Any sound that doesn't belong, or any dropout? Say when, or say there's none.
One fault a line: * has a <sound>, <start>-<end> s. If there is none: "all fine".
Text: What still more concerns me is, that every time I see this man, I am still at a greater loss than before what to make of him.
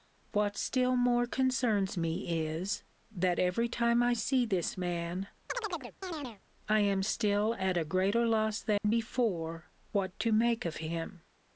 * has a chirp, 5.5-6.4 s
* has a dropout, 8.8-8.8 s